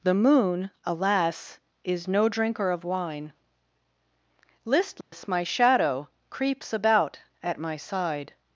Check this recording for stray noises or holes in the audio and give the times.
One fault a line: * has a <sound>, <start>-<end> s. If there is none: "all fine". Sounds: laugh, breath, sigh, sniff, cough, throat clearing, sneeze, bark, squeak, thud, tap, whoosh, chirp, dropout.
* has a dropout, 5.0-5.1 s